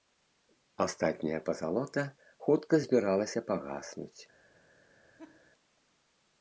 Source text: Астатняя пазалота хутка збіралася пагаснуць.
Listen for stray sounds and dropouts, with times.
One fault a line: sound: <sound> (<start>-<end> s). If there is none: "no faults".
sound: laugh (5.2-5.5 s)